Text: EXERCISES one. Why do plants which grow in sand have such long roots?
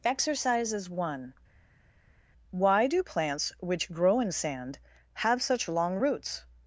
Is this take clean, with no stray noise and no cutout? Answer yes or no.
yes